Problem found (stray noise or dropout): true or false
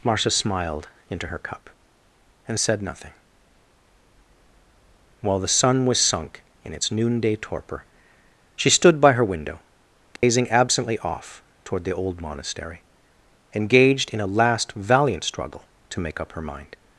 true